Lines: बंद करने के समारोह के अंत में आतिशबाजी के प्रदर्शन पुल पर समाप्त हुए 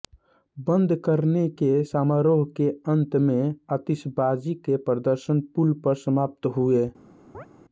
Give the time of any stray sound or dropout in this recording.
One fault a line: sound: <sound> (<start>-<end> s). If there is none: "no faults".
sound: chirp (7.3-7.5 s)